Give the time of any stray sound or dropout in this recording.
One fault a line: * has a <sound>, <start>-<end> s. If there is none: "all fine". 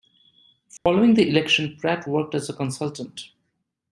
* has a dropout, 0.8-0.9 s